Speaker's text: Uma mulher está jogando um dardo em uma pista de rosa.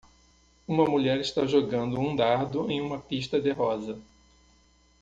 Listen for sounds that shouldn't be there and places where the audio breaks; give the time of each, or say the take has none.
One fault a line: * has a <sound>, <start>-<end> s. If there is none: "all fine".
all fine